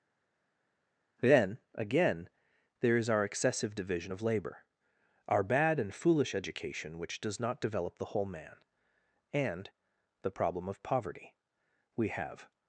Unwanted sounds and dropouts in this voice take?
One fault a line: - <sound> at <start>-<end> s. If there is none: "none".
none